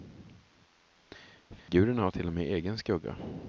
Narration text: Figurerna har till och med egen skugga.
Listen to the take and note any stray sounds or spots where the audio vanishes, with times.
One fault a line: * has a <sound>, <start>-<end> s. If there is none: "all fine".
* has a dropout, 1.6-1.7 s